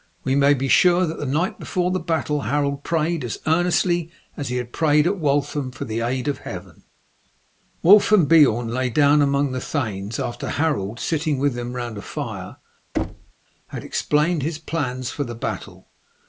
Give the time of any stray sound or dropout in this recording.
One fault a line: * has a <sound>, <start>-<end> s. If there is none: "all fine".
* has a thud, 12.9-13.3 s